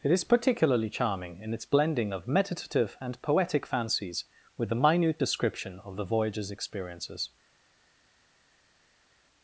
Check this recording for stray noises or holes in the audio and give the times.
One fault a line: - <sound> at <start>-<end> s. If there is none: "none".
none